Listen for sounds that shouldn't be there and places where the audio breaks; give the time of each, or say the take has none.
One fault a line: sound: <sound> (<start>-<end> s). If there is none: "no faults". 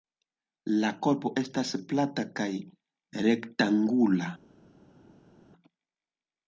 no faults